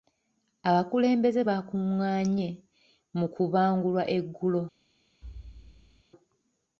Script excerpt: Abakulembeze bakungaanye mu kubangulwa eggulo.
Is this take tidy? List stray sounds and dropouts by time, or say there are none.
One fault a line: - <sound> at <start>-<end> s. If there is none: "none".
- thud at 5.2-6.0 s